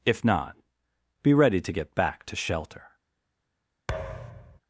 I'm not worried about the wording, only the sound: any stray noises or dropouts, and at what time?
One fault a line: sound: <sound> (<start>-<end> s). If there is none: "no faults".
sound: thud (3.9-4.6 s)